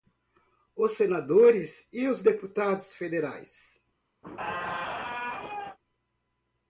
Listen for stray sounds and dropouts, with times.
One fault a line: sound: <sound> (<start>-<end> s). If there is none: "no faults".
sound: squeak (4.2-5.8 s)